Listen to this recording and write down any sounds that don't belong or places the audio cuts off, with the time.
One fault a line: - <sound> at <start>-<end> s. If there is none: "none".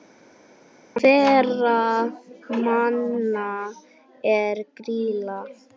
none